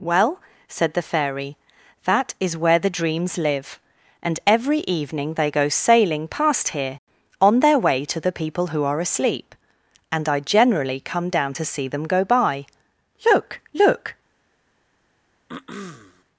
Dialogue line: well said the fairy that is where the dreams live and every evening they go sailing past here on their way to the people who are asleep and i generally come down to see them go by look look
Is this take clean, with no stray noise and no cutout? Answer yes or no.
no